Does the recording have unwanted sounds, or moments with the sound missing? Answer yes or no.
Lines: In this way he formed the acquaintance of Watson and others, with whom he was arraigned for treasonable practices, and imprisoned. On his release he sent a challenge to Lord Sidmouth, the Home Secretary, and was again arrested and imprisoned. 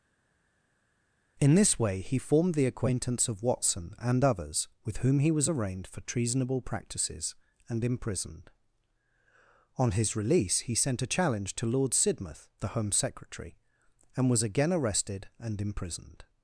no